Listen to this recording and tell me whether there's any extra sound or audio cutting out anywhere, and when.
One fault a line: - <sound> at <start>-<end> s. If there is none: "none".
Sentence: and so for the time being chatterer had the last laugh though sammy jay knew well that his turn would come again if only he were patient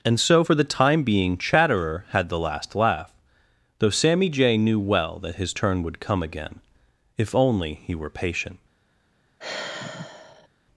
- sigh at 9.4-10.5 s